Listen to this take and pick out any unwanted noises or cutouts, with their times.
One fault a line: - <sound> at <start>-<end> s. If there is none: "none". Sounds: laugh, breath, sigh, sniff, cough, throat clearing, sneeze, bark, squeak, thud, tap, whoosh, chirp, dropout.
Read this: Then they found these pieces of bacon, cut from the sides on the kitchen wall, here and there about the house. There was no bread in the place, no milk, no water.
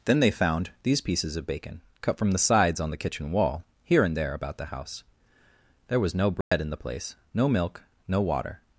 - dropout at 6.4-6.5 s